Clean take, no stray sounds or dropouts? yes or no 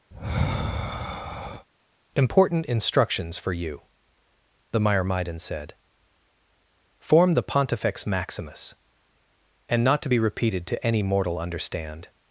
no